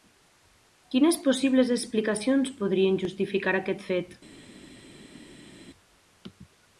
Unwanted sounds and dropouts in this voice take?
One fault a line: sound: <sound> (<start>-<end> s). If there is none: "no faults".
no faults